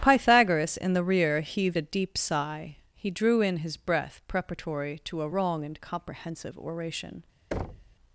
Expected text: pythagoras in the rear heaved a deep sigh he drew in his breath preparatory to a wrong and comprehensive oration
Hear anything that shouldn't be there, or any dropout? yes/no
yes